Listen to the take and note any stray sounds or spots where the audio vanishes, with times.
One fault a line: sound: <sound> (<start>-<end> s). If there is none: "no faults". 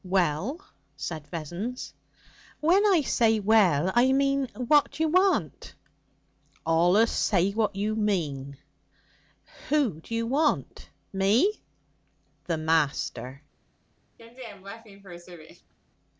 sound: laugh (14.2-15.7 s)